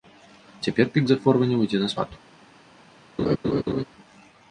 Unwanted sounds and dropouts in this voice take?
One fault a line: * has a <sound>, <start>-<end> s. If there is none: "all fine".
* has a laugh, 3.2-3.8 s